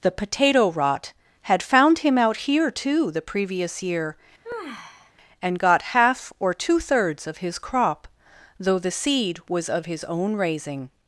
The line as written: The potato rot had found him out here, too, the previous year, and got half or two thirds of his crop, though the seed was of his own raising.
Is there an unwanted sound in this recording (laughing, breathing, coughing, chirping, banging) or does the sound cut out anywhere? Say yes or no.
yes